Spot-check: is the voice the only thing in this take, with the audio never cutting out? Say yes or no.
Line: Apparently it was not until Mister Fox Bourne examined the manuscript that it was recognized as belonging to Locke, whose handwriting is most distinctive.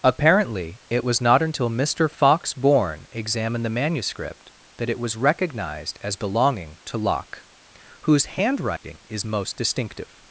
no